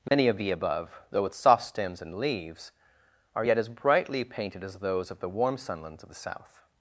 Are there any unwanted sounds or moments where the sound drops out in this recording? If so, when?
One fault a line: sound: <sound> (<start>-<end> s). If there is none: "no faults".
sound: dropout (0.1-0.1 s)